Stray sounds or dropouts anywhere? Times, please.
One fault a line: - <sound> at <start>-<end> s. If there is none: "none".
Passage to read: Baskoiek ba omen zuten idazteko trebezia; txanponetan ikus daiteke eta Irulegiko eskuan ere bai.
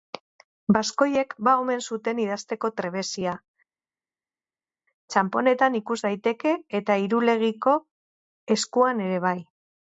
none